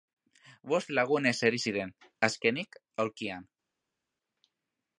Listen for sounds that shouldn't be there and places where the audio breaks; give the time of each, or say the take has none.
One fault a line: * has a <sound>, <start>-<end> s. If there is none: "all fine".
all fine